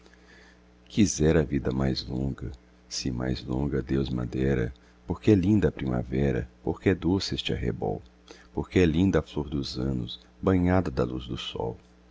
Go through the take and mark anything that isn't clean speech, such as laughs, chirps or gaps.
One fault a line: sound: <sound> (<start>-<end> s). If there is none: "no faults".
no faults